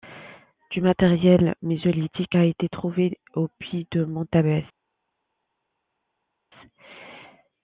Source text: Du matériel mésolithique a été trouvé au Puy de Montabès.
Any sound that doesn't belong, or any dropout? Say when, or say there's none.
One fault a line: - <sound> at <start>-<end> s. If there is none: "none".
none